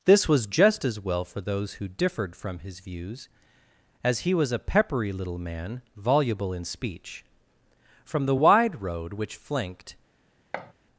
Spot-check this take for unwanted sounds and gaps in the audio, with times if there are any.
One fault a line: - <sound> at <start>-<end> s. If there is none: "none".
- thud at 10.5-10.7 s